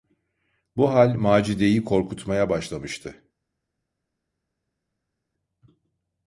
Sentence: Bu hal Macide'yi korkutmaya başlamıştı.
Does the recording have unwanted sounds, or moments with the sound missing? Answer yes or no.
no